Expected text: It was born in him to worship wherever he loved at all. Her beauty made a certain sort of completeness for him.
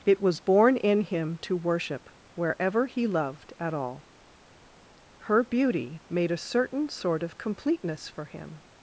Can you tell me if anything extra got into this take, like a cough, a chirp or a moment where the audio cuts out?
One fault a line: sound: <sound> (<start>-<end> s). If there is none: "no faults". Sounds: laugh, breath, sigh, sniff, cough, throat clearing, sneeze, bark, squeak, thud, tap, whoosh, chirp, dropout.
no faults